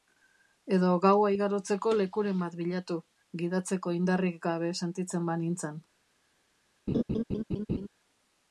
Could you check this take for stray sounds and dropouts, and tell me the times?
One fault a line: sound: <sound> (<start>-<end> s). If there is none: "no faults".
sound: laugh (6.9-7.9 s)